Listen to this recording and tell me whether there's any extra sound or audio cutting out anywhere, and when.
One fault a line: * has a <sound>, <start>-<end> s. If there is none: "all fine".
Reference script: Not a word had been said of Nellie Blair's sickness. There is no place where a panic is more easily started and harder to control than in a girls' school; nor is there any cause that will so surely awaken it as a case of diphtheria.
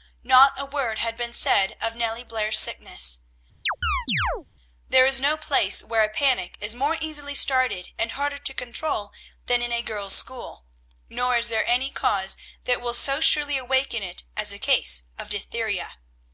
* has a chirp, 3.6-4.5 s